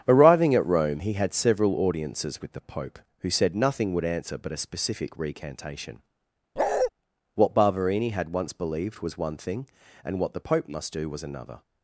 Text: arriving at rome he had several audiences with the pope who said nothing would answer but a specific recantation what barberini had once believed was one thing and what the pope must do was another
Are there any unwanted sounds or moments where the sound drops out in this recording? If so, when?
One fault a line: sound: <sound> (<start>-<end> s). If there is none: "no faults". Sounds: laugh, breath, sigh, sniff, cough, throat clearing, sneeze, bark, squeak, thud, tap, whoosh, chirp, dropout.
sound: bark (6.6-6.9 s)